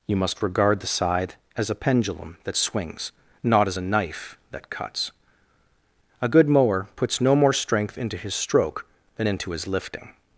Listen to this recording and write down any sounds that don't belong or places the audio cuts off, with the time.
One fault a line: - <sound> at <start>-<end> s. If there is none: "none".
none